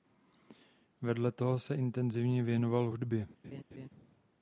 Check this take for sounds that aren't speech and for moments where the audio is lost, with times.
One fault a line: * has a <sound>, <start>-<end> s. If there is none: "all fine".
* has a laugh, 3.4-3.9 s